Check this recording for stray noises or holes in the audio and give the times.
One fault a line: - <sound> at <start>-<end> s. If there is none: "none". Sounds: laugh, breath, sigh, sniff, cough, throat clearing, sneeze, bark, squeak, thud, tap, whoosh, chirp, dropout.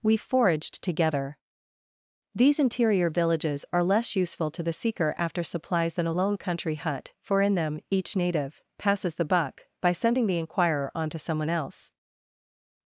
none